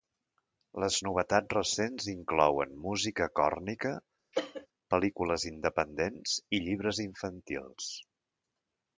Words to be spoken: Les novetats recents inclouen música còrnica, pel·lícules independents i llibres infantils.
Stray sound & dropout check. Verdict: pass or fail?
fail